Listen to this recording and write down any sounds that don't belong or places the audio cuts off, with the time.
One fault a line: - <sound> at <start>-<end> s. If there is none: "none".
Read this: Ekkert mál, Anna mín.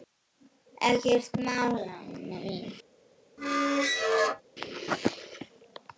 - squeak at 3.4-4.4 s